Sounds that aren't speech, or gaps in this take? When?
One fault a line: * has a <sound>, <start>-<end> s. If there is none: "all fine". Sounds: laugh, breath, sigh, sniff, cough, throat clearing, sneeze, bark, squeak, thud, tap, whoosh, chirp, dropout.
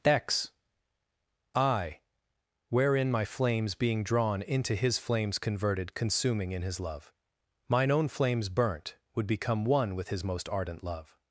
all fine